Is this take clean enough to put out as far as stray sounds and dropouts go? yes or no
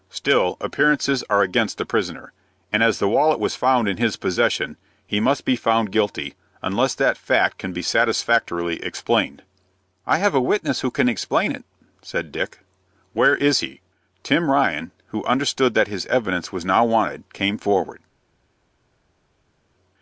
yes